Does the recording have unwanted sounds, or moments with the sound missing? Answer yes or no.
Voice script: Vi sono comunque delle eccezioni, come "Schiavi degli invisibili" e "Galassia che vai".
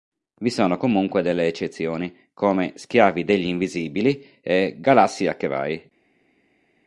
no